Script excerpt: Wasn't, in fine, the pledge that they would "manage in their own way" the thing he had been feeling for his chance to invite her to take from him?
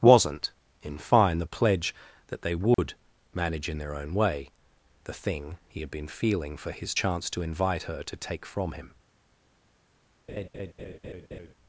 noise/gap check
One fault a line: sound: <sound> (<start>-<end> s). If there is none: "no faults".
sound: dropout (2.7-2.8 s)
sound: laugh (10.3-11.5 s)